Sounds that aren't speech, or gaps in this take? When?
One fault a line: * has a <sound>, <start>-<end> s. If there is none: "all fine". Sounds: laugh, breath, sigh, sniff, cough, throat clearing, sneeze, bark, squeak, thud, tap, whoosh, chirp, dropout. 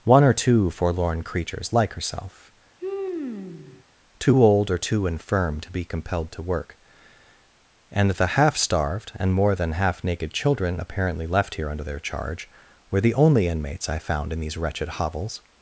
* has a sigh, 2.8-3.8 s